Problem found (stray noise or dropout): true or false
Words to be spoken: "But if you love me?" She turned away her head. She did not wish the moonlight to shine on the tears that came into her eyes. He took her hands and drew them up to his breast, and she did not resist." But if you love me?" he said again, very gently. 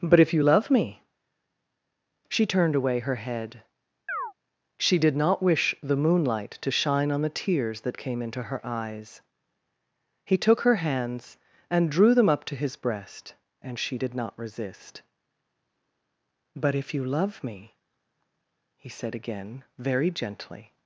true